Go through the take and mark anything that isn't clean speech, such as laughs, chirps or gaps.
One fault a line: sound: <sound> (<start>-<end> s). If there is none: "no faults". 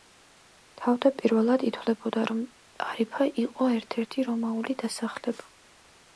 no faults